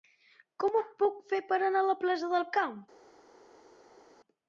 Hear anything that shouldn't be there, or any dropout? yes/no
no